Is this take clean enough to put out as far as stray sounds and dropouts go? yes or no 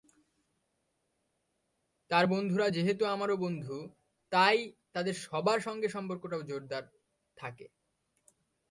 yes